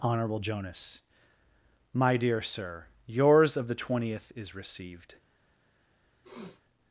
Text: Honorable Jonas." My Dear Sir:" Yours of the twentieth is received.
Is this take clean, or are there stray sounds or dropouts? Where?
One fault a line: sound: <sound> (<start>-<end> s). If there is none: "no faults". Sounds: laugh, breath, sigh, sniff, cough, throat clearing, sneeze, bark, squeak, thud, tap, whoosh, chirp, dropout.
sound: sniff (6.2-6.6 s)